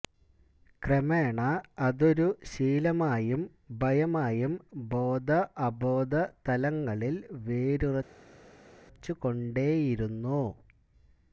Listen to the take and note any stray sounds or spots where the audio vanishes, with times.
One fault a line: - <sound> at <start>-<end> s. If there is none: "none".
none